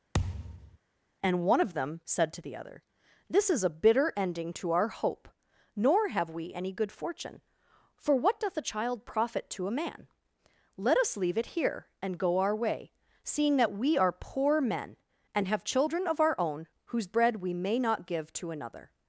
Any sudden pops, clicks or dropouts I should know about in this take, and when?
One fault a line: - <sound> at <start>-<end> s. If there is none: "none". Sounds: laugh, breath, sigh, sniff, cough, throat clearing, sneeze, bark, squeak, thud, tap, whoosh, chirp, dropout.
- thud at 0.1-0.8 s